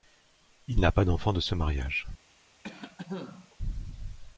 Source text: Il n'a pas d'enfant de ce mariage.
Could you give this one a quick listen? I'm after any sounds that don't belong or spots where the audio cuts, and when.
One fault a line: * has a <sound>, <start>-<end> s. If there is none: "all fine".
* has a cough, 2.6-3.6 s